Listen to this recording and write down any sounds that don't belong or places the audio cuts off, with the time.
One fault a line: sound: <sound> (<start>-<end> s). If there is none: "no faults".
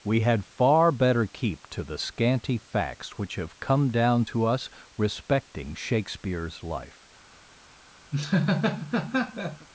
sound: laugh (8.1-9.7 s)